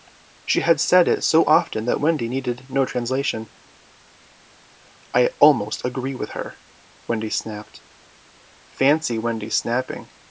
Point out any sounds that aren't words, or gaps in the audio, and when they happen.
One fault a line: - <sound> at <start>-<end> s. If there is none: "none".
none